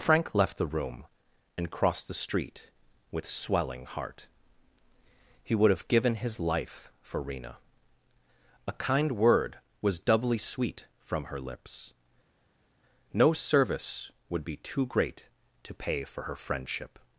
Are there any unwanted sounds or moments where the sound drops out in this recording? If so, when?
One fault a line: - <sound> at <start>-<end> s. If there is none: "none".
none